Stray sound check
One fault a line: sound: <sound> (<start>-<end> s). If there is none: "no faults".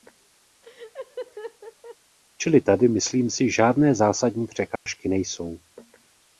sound: laugh (0.6-2.0 s)
sound: dropout (4.8-4.9 s)